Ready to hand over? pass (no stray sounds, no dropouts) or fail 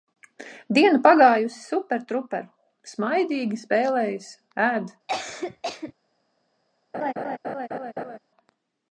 fail